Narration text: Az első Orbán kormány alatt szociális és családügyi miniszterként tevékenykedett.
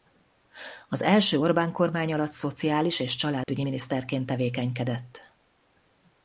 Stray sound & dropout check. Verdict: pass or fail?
fail